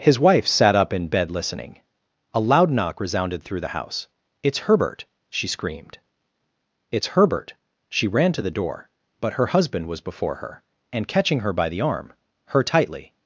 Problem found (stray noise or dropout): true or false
false